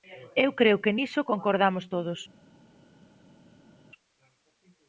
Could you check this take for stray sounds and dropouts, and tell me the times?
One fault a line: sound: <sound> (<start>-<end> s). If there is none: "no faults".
no faults